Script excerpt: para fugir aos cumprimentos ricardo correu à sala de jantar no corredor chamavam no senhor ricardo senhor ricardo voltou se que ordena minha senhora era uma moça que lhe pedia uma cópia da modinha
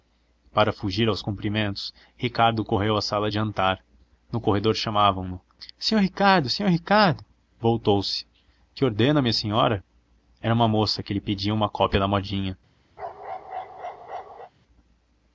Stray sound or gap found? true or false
true